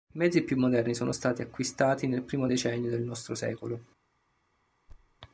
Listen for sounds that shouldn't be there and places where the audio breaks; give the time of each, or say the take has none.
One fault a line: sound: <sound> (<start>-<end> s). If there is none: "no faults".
sound: thud (4.9-5.2 s)